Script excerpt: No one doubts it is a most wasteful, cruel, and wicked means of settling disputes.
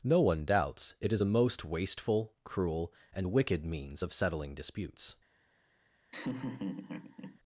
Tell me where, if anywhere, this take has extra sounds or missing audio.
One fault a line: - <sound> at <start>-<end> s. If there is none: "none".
- laugh at 6.1-7.4 s